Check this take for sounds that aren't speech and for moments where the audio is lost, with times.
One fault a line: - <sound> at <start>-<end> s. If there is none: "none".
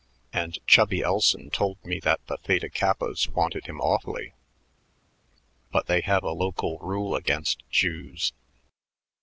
none